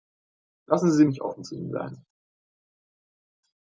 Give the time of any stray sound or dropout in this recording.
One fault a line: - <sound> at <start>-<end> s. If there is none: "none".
none